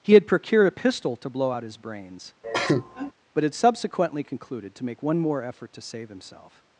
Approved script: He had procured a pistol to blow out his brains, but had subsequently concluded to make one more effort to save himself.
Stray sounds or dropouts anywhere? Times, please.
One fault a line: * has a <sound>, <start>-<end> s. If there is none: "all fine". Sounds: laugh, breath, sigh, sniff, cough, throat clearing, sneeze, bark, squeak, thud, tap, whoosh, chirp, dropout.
* has a cough, 2.4-3.1 s